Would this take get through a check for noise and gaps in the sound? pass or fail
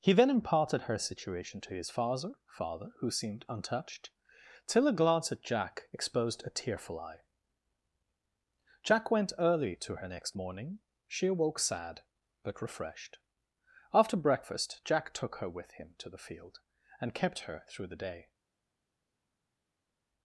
pass